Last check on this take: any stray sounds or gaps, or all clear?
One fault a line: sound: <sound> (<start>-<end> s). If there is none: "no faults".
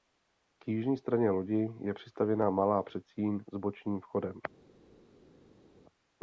no faults